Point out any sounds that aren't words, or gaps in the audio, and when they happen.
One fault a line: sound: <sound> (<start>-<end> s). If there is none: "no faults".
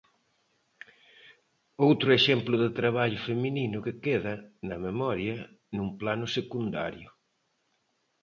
no faults